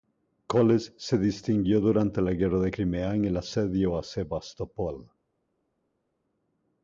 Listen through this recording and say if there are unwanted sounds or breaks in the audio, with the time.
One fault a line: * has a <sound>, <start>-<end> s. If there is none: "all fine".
all fine